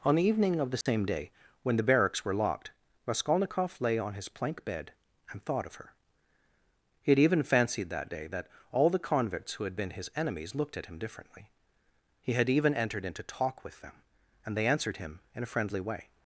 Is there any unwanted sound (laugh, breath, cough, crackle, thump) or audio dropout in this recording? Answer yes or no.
yes